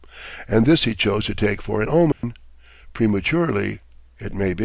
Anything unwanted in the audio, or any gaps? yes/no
yes